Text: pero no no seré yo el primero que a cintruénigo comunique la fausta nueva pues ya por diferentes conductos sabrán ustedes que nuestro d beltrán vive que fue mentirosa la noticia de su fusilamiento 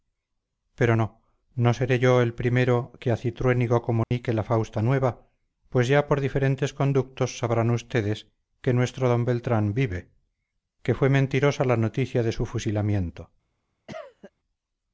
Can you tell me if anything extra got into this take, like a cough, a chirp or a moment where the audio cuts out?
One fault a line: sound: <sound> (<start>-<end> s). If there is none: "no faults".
sound: dropout (4.0-4.1 s)
sound: cough (13.9-14.3 s)